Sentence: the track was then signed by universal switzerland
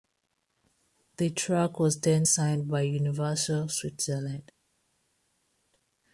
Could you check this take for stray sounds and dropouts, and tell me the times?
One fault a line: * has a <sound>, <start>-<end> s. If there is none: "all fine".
all fine